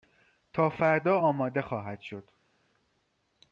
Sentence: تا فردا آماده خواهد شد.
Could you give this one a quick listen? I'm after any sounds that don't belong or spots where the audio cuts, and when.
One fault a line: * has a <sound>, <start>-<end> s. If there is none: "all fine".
all fine